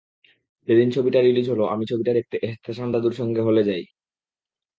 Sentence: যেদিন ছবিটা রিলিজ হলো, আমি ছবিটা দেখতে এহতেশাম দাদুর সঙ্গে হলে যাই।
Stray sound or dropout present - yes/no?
no